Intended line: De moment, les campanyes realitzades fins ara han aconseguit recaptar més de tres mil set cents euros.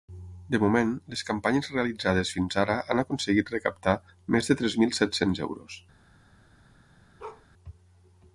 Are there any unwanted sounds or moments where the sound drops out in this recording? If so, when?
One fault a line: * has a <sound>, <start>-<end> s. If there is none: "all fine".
* has a bark, 7.2-7.5 s